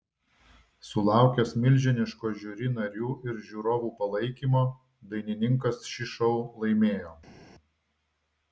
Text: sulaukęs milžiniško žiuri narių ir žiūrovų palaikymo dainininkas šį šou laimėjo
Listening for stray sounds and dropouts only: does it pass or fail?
pass